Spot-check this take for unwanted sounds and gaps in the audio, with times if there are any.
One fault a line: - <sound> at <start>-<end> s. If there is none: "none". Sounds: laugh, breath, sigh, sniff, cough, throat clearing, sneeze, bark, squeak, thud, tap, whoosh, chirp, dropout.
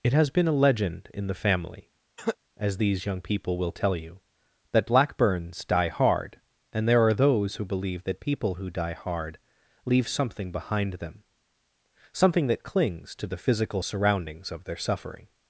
- cough at 2.2-2.4 s